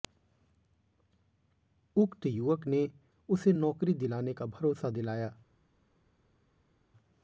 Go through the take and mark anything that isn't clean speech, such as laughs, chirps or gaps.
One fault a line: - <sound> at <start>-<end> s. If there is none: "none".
none